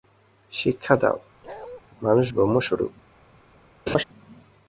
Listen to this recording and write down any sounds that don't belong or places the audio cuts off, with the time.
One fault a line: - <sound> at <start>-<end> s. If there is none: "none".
- bark at 1.4-1.8 s
- laugh at 3.9-4.0 s